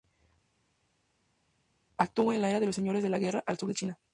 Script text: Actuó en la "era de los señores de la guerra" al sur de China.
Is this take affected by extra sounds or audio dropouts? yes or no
no